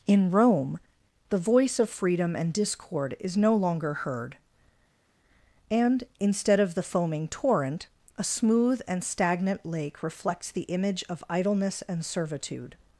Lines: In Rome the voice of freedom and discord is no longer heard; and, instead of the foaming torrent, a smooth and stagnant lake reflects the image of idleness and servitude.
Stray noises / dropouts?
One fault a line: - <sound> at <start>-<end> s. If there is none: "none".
none